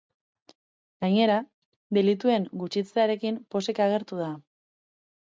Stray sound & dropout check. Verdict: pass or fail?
pass